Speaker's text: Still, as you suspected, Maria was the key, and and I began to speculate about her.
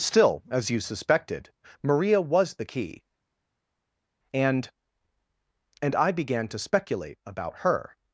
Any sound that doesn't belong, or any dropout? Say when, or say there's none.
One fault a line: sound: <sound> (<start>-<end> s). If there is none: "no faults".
no faults